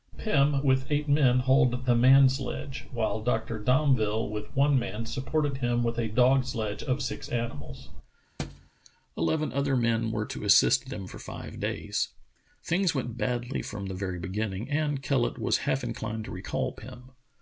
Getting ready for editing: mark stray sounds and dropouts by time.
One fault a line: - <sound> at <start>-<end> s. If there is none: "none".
- thud at 8.4-8.7 s